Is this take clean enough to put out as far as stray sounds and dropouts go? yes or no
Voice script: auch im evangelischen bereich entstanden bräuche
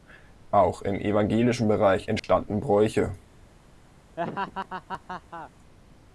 no